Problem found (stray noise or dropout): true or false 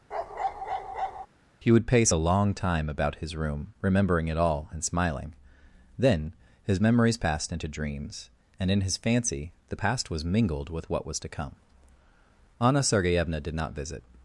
true